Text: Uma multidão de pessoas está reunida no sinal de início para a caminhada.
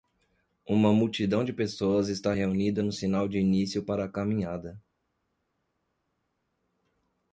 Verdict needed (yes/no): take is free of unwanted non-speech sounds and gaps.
yes